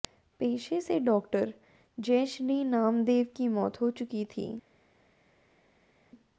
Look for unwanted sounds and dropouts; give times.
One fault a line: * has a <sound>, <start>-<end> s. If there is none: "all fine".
all fine